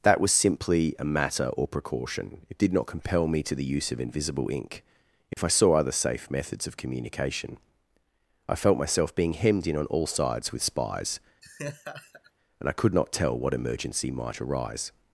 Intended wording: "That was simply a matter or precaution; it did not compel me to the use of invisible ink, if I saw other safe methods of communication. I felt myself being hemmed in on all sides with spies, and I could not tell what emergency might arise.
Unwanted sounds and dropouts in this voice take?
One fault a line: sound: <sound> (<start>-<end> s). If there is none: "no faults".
sound: dropout (5.3-5.4 s)
sound: laugh (11.4-12.3 s)